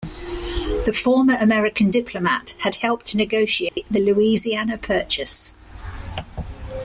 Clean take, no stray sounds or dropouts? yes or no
no